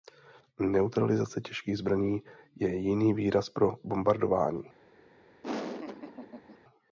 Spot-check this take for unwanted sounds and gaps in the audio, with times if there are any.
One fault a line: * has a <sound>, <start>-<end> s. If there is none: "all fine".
* has a laugh, 5.4-6.6 s